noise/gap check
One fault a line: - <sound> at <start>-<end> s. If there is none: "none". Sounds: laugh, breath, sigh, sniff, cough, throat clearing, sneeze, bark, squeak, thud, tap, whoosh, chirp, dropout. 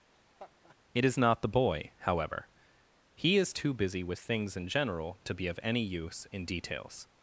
- laugh at 0.1-0.8 s